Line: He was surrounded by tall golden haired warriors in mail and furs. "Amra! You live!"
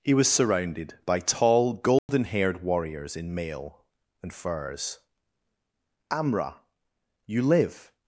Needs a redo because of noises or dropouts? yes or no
yes